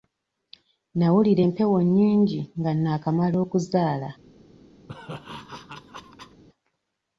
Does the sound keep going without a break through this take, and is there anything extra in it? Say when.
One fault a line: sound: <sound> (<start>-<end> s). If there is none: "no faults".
sound: laugh (4.9-6.4 s)